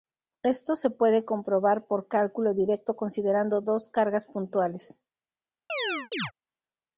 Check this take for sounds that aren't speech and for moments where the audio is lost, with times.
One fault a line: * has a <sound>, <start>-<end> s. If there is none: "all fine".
* has a chirp, 5.7-6.3 s